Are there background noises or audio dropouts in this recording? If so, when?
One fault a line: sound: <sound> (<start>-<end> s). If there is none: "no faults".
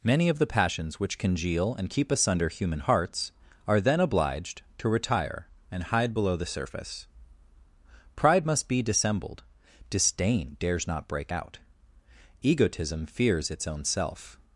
no faults